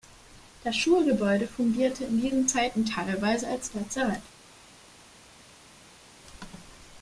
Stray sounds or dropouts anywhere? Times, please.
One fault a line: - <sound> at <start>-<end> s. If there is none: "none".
none